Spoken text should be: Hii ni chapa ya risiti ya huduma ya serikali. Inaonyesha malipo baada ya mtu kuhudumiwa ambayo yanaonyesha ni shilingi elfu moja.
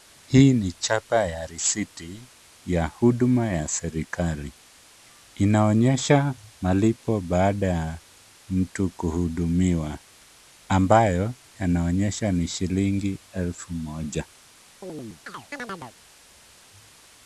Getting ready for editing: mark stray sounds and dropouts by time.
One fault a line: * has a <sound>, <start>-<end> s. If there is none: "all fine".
* has a chirp, 14.8-16.0 s